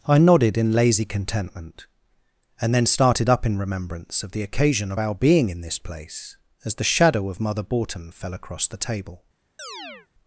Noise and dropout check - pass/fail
fail